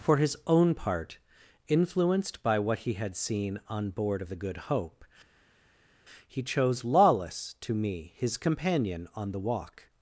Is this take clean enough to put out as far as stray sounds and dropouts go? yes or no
yes